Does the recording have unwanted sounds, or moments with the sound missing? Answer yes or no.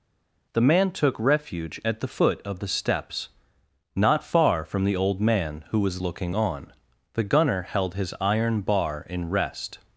no